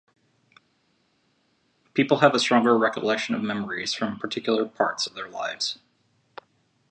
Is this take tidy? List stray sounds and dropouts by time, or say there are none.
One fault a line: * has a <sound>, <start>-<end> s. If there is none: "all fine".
all fine